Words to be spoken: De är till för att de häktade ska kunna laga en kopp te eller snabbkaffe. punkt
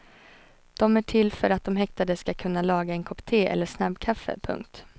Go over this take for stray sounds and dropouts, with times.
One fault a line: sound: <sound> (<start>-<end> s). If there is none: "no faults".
no faults